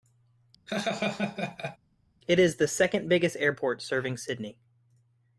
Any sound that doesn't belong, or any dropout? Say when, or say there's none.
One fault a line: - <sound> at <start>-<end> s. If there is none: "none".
- laugh at 0.7-1.8 s